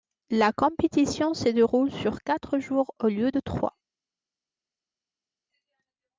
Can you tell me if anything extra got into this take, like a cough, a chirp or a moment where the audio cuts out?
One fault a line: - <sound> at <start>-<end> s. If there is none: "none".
none